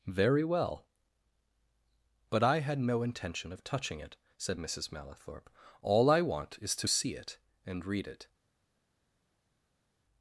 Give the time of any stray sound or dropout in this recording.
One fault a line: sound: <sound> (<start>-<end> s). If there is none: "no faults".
no faults